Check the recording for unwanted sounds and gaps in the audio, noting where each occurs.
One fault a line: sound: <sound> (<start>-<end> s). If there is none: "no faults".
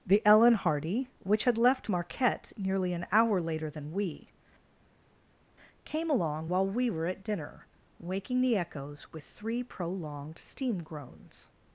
no faults